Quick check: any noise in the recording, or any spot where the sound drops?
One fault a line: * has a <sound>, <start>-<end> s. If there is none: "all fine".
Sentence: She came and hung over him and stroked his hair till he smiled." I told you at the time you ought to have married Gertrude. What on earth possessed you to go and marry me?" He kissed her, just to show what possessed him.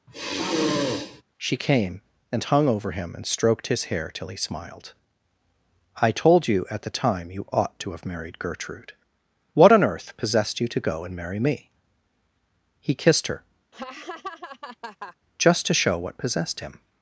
* has a sigh, 0.1-1.2 s
* has a laugh, 13.7-15.2 s